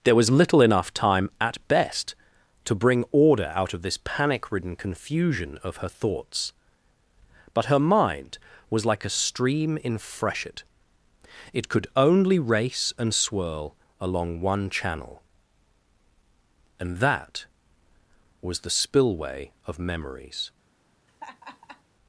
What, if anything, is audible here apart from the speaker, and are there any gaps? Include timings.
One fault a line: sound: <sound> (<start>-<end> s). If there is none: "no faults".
sound: laugh (21.1-21.8 s)